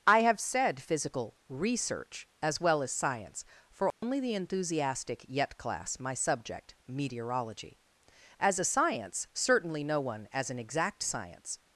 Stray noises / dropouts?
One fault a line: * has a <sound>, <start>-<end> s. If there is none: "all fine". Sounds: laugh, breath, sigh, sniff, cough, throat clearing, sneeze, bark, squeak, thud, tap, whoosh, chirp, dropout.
* has a dropout, 3.9-4.0 s